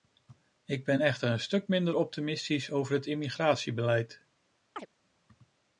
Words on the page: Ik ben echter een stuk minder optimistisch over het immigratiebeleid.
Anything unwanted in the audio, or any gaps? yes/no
yes